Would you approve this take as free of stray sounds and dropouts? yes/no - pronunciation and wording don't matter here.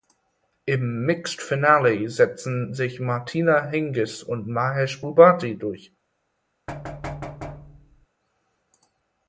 no